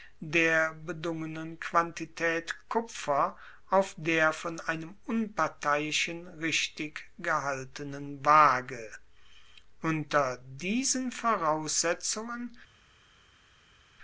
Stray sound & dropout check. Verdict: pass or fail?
pass